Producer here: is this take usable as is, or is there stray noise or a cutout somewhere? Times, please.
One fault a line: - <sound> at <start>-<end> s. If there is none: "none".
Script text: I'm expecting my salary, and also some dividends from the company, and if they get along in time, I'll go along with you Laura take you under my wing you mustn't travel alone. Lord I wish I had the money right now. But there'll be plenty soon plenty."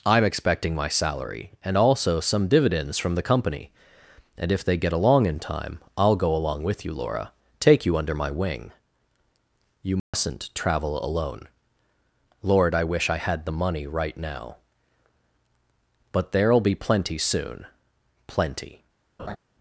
- dropout at 10.0-10.1 s
- laugh at 19.2-19.4 s